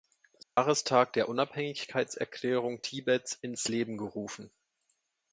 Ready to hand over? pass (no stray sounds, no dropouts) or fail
fail